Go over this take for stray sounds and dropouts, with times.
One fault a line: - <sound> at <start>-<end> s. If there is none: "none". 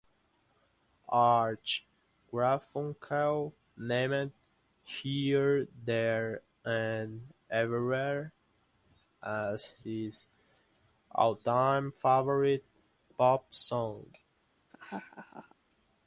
- laugh at 14.7-15.5 s